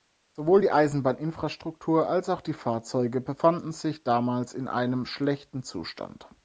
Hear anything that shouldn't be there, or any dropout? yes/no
no